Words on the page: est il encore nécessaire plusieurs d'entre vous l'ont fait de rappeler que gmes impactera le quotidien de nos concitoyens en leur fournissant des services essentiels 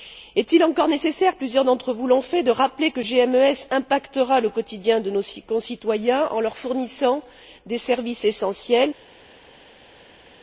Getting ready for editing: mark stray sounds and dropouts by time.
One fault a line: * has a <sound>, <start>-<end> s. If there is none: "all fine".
all fine